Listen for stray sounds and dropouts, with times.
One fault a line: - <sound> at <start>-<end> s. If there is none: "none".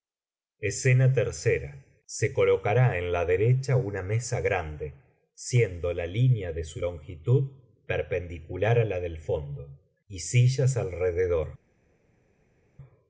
none